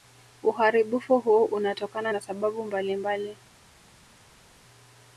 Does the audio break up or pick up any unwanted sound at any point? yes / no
no